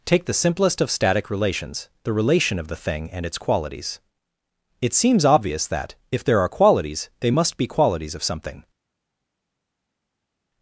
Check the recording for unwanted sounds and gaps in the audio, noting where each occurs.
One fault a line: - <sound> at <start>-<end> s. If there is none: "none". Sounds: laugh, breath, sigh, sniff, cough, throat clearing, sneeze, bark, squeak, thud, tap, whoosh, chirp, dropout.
none